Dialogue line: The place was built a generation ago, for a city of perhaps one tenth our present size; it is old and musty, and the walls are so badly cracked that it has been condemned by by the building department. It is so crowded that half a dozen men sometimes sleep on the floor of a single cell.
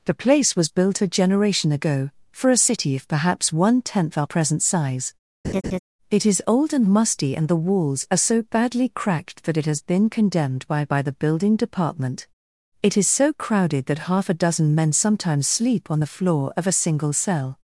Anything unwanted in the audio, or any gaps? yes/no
yes